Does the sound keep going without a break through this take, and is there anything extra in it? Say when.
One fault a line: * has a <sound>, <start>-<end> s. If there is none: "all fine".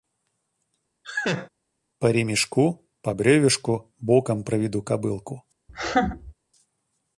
* has a laugh, 1.0-1.5 s
* has a laugh, 5.7-6.3 s